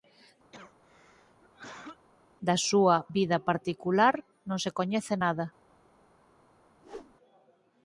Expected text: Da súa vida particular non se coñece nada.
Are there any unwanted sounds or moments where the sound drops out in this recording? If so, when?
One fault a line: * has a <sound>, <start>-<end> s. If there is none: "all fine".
* has a cough, 0.5-2.1 s
* has a whoosh, 6.8-7.2 s